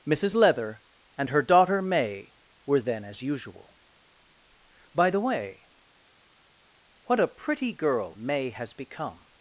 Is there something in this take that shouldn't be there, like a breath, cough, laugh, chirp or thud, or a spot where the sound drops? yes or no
no